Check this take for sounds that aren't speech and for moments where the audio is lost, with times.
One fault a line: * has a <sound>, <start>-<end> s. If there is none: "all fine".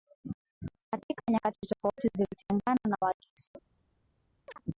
* has a chirp, 4.5-4.6 s